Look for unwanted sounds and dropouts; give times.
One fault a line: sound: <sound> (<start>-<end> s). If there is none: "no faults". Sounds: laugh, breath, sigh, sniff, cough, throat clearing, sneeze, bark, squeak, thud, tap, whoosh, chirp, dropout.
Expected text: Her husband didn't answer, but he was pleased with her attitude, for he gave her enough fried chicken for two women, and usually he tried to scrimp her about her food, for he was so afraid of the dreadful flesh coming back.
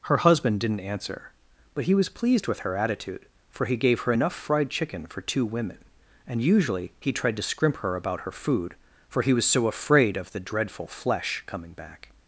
no faults